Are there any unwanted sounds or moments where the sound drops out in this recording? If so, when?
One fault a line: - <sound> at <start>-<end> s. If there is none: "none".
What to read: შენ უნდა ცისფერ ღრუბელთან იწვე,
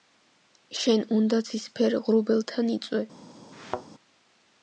- thud at 3.5-3.9 s